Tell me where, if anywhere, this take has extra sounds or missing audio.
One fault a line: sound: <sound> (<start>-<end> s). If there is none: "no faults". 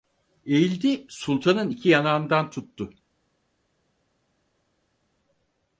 no faults